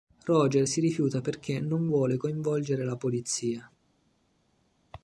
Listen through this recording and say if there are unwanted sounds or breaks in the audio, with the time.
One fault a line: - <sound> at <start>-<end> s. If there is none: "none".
none